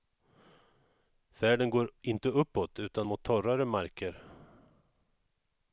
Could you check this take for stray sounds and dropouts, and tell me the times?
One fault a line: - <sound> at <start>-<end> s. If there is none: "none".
none